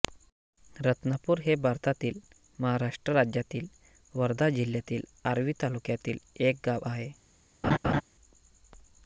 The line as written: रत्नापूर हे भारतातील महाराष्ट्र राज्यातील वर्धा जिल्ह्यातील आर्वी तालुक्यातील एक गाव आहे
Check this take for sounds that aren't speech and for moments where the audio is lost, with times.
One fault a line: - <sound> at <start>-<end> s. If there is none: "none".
- laugh at 7.6-8.0 s